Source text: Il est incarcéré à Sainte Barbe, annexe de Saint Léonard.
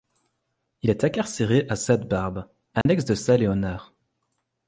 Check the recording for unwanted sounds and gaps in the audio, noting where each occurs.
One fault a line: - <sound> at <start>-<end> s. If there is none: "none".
- dropout at 2.8-2.9 s